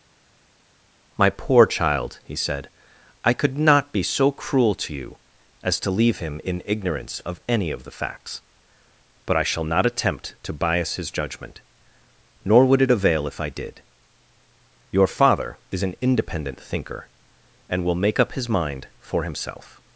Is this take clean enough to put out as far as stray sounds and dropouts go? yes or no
yes